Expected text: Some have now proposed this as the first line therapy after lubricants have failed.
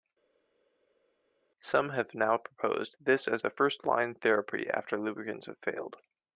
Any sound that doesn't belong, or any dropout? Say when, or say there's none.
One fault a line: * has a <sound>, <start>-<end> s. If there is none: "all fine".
all fine